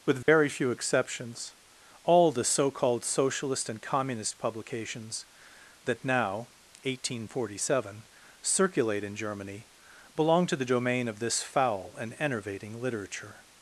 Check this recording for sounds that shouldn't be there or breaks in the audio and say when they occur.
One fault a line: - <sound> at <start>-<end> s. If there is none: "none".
- dropout at 0.2-0.3 s